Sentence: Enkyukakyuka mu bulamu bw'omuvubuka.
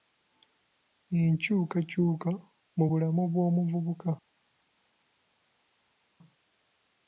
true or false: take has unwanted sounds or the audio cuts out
false